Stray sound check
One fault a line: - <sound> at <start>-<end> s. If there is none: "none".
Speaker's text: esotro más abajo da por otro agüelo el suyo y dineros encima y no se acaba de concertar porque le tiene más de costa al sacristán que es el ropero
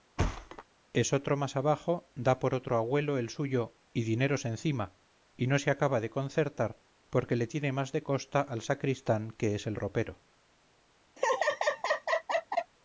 - thud at 0.2-0.6 s
- laugh at 11.2-12.7 s